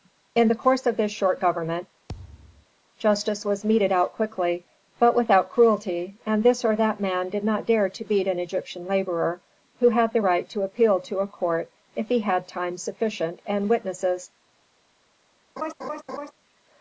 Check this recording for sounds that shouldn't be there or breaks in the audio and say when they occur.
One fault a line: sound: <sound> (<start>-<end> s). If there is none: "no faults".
sound: thud (2.1-2.7 s)
sound: laugh (15.6-16.3 s)